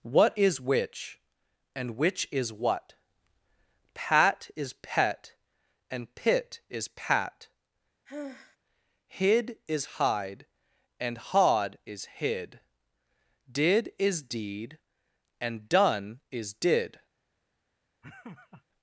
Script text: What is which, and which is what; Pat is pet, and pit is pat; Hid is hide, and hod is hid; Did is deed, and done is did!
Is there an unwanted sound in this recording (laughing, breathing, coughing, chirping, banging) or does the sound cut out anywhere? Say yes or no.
yes